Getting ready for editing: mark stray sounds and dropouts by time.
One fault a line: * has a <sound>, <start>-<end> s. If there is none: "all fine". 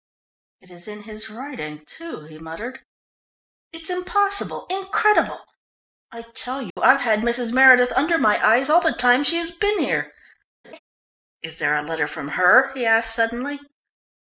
* has a dropout, 6.7-6.8 s
* has a laugh, 10.6-10.8 s